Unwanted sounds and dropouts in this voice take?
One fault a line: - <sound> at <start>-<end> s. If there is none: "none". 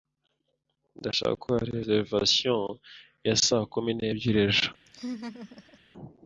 - laugh at 4.9-5.8 s